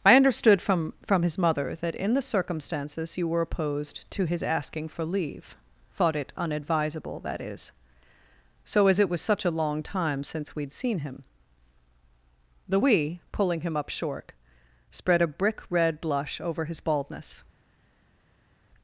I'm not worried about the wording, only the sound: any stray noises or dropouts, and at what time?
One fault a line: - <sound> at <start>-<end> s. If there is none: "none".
none